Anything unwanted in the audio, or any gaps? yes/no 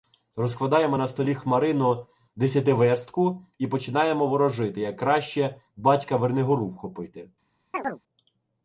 yes